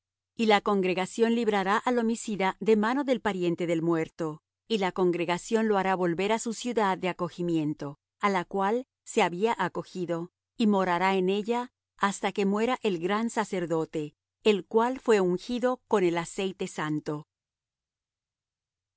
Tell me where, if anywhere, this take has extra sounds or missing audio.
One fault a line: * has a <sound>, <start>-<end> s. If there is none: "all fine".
all fine